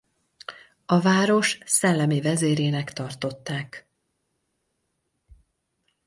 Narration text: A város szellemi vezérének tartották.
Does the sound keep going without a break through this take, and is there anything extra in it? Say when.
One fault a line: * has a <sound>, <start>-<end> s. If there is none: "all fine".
all fine